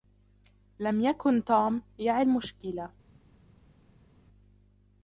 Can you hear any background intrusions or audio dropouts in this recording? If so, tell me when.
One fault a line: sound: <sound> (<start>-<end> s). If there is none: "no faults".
no faults